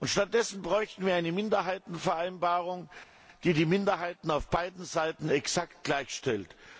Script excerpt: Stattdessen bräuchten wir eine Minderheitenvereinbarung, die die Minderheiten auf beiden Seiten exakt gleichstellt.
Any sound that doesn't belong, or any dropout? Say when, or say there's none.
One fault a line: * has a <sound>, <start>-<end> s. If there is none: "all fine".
all fine